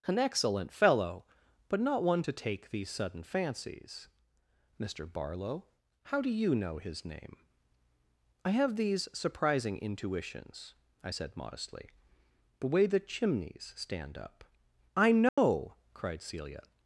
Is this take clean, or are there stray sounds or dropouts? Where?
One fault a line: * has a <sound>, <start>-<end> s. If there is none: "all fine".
* has a dropout, 15.3-15.4 s